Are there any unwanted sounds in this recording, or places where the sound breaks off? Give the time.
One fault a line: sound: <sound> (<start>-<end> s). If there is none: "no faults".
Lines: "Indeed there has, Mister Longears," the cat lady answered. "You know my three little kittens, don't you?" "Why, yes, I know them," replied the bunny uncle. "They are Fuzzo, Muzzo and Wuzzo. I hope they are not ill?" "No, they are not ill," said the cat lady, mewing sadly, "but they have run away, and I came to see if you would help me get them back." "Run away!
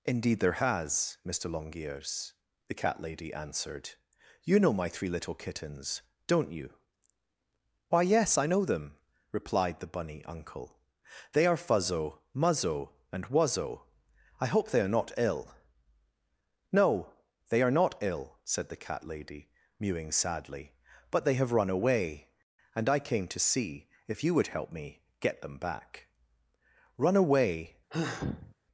sound: sigh (27.9-28.6 s)